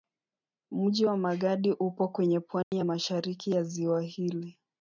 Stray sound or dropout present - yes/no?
yes